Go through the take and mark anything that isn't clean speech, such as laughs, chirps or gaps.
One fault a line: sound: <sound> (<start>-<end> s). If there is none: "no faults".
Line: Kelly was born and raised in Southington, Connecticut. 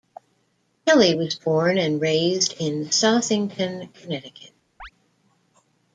sound: chirp (4.8-4.9 s)